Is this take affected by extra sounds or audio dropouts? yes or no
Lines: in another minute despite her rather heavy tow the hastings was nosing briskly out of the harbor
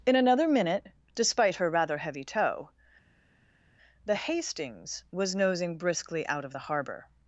no